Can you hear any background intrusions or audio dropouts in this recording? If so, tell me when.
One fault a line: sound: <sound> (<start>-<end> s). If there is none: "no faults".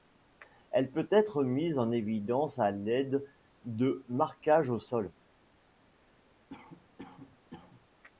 sound: cough (6.5-7.9 s)